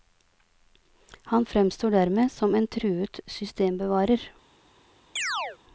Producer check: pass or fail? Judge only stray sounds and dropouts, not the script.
fail